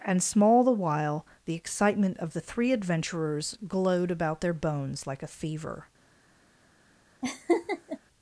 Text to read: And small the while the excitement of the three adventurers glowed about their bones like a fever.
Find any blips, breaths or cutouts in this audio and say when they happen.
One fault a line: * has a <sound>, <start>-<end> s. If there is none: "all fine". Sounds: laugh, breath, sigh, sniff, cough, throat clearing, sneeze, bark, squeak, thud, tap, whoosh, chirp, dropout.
* has a laugh, 7.2-8.0 s